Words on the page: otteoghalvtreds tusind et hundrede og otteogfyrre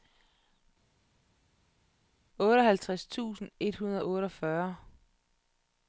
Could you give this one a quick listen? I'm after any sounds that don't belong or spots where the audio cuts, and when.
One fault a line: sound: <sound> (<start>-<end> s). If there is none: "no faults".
no faults